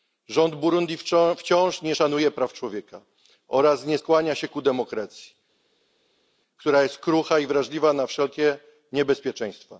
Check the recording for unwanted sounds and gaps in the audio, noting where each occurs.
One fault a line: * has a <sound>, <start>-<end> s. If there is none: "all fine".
all fine